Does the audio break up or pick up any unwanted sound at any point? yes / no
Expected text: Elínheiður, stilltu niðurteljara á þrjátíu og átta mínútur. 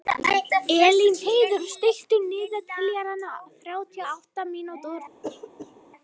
yes